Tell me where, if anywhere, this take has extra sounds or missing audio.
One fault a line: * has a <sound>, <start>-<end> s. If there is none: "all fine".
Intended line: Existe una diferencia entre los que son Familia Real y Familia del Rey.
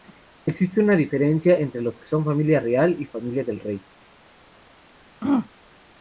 * has a throat clearing, 5.2-5.5 s